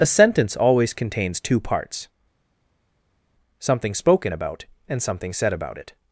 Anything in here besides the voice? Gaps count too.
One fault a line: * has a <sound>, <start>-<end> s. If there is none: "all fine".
all fine